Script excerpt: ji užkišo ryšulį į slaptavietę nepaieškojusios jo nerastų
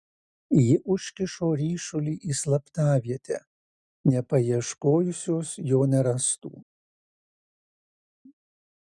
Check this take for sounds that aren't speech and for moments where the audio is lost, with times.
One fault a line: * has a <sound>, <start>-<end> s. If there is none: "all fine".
all fine